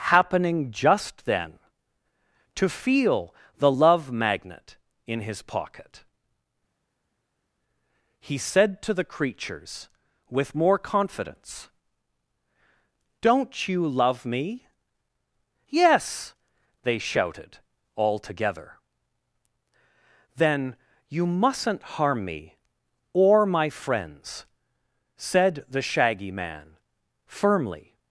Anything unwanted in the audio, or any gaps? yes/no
no